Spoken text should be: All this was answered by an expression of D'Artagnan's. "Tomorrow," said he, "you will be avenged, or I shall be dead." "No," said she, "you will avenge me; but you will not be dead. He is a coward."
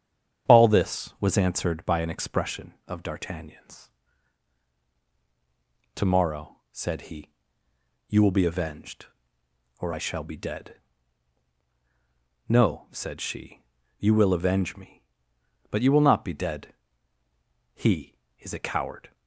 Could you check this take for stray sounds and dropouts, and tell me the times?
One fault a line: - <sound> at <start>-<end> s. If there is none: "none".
none